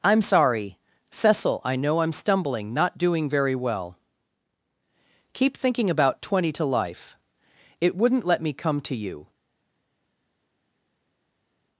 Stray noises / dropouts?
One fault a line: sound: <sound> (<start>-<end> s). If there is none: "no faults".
no faults